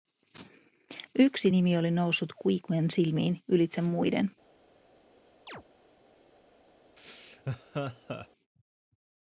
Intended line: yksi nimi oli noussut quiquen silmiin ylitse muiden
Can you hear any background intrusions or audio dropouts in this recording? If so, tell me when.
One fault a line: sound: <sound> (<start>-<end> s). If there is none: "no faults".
sound: chirp (5.5-5.6 s)
sound: laugh (7.0-8.3 s)